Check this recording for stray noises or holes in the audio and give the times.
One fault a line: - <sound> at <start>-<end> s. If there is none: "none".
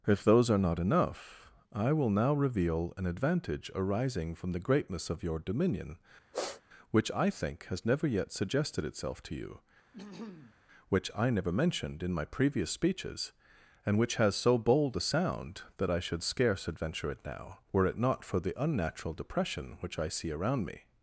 - sniff at 6.3-6.6 s
- throat clearing at 9.9-10.6 s